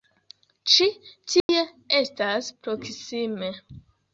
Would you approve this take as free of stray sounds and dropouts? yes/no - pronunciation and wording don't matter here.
no